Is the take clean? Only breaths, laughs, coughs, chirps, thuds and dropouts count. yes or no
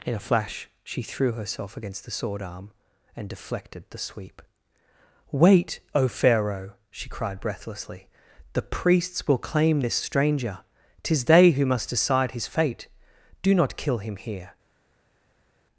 yes